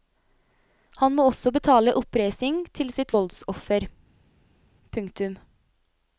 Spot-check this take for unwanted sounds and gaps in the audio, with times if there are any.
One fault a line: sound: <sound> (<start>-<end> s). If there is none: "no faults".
no faults